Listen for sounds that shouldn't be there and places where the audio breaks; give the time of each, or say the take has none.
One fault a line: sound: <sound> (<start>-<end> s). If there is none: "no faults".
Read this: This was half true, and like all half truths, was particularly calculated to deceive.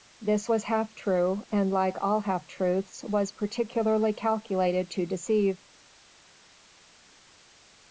no faults